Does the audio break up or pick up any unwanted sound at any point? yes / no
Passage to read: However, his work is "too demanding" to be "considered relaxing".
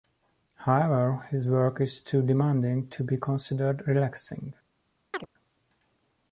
yes